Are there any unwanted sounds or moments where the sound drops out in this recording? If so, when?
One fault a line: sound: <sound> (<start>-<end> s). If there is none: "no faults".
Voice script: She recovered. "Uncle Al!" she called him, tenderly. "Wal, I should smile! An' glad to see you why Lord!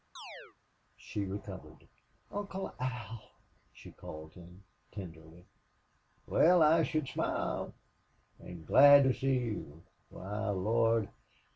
sound: chirp (0.2-0.6 s)